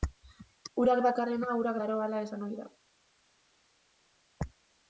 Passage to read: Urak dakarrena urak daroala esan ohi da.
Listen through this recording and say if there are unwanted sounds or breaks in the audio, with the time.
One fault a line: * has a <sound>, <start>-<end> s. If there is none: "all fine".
all fine